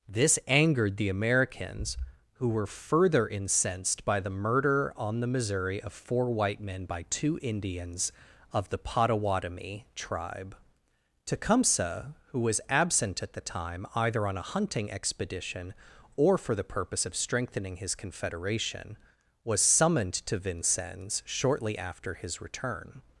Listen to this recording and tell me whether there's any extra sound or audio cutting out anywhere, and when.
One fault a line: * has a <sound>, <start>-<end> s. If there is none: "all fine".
all fine